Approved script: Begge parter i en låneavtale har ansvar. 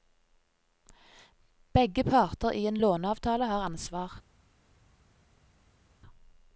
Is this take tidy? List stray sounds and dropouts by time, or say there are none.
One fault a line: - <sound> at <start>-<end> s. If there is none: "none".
none